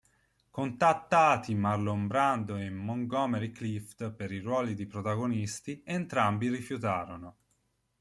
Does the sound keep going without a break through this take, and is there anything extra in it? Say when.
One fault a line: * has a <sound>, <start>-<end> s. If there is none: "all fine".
all fine